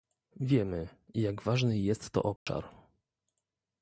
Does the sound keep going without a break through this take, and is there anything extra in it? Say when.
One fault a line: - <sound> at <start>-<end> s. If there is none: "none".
- dropout at 2.4-2.5 s